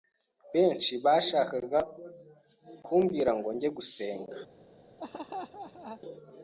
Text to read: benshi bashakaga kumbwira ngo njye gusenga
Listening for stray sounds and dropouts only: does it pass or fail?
fail